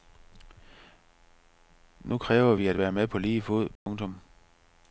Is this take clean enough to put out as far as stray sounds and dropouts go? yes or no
no